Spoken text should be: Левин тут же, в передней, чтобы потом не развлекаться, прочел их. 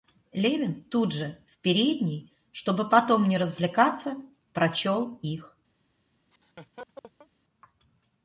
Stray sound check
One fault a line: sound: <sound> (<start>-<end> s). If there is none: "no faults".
sound: laugh (6.3-7.3 s)